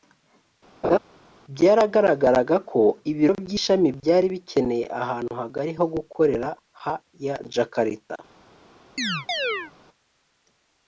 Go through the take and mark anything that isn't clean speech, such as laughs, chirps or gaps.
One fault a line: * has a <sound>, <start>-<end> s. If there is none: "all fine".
* has a laugh, 0.8-1.0 s
* has a chirp, 9.0-9.7 s